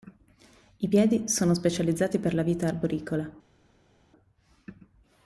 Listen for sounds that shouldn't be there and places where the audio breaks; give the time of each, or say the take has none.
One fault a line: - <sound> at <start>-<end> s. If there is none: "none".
none